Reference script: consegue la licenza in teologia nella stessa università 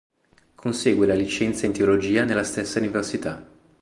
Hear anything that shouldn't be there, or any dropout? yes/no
no